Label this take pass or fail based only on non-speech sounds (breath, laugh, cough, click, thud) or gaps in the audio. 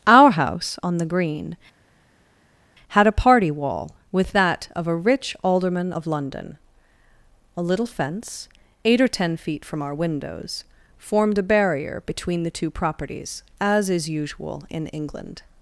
pass